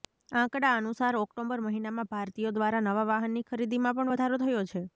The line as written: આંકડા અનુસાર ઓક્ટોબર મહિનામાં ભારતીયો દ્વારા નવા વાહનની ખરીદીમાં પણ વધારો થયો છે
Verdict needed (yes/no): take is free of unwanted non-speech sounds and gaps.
yes